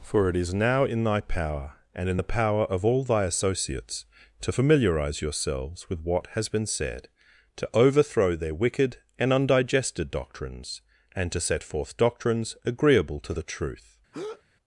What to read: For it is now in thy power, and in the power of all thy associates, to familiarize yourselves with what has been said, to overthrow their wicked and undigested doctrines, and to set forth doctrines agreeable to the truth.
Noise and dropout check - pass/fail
fail